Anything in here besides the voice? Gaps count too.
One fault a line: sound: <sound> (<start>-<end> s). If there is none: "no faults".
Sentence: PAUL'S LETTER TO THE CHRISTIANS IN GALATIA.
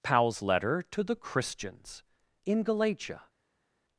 no faults